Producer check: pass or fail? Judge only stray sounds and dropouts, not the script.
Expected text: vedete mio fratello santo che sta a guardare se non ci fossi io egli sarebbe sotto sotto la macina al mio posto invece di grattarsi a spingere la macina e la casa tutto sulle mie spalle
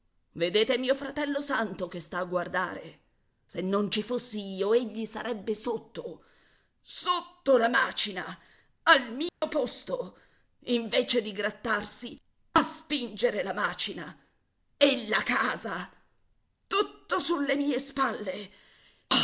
fail